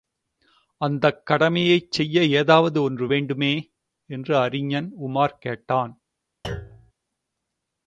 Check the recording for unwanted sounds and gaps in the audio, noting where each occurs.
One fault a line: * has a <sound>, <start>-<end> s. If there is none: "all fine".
* has a thud, 6.4-6.9 s